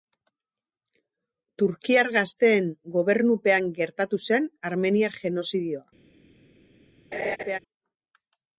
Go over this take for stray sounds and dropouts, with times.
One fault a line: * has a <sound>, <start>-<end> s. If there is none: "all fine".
* has a laugh, 7.1-7.6 s